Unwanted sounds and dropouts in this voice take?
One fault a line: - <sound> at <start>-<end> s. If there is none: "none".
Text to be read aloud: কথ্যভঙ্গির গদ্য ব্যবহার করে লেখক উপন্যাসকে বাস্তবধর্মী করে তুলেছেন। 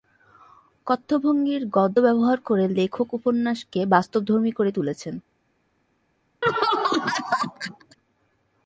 - laugh at 6.4-8.0 s